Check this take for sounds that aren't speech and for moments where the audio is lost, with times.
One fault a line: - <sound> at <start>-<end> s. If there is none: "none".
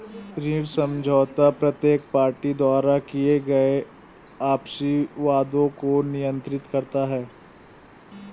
none